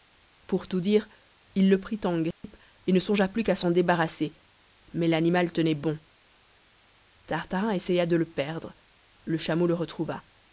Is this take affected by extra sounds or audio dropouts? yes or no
yes